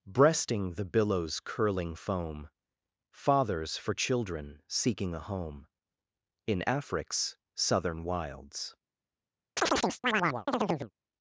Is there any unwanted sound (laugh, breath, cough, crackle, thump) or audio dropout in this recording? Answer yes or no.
yes